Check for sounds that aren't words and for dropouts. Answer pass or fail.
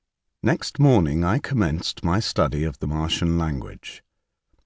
pass